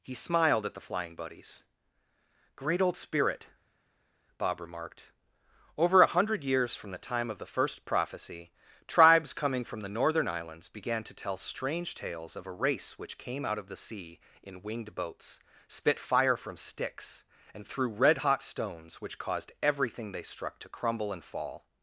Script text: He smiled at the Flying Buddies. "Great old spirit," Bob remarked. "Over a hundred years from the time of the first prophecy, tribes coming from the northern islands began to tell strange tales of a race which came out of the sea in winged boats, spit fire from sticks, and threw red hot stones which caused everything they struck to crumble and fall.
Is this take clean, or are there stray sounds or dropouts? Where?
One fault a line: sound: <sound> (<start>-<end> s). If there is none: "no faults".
no faults